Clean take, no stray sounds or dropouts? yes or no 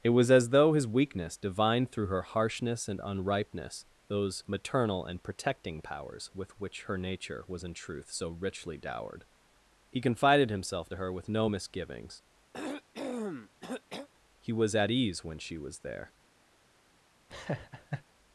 no